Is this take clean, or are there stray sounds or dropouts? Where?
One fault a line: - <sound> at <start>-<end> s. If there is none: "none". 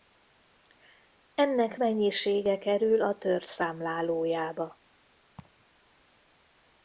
- laugh at 5.4-5.6 s